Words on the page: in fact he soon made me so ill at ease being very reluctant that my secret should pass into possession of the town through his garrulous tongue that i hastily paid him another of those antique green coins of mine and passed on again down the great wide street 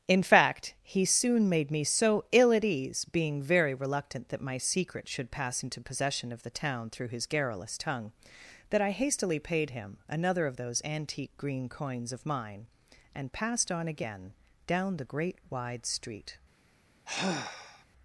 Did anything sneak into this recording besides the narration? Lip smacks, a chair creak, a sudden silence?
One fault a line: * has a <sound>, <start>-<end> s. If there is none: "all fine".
* has a sigh, 17.1-17.8 s